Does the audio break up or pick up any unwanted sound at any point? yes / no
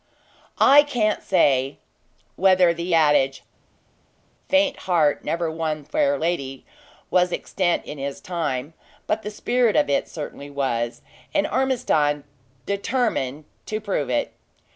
no